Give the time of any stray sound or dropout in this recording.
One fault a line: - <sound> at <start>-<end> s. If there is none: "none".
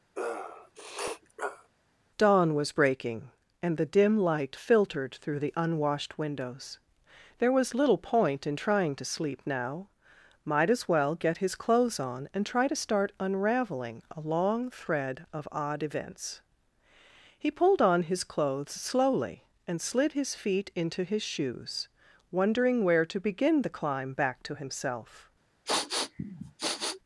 - sniff at 0.1-1.7 s
- sniff at 25.7-27.0 s